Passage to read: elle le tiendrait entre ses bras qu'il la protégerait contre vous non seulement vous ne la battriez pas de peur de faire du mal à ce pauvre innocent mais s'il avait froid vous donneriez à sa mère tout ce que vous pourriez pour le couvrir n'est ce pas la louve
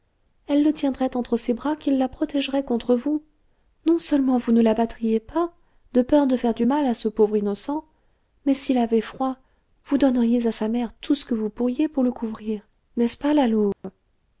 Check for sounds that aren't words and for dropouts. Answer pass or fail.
fail